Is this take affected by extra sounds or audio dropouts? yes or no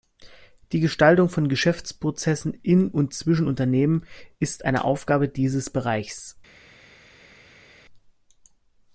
no